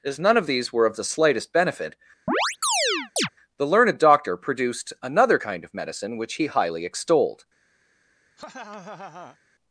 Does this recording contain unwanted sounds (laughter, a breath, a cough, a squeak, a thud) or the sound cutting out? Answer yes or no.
yes